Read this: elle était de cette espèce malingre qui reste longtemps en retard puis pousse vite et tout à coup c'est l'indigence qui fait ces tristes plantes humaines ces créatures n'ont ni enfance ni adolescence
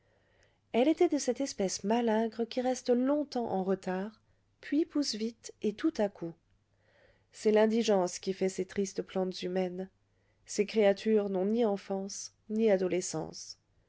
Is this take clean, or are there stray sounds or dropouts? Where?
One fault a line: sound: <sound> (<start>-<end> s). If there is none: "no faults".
no faults